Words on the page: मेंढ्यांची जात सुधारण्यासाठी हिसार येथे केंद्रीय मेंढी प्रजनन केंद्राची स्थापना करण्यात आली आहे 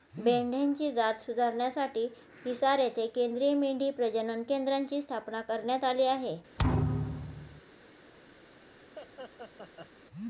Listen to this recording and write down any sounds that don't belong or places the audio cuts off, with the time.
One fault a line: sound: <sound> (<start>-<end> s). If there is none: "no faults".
sound: thud (6.6-7.6 s)
sound: laugh (9.0-9.9 s)